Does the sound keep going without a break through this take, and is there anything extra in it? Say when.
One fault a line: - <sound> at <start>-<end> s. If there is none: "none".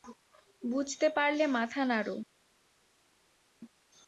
none